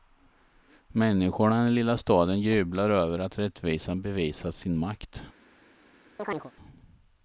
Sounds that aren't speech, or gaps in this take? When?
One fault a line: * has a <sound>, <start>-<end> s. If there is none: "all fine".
* has a chirp, 6.2-6.5 s